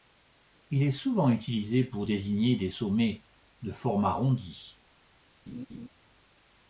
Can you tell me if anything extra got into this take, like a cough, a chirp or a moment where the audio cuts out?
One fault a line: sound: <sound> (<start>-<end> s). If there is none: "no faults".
sound: laugh (5.5-5.9 s)